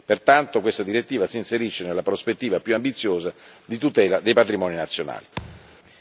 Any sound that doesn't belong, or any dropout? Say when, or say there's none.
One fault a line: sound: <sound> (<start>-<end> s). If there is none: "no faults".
sound: thud (5.4-5.8 s)